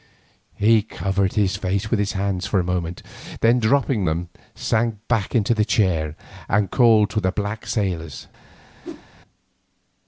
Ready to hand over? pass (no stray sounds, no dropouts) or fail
fail